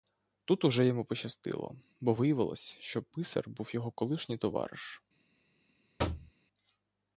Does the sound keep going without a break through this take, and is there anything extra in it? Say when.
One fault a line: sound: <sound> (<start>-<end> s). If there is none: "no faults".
sound: thud (6.0-6.3 s)